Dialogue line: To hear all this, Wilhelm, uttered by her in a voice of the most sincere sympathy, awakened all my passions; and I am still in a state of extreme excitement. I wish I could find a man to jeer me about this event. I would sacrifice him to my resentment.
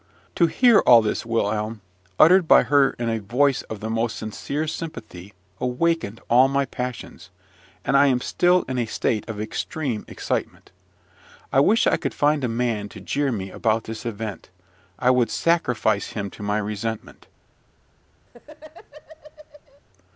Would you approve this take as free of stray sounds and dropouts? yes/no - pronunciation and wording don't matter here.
no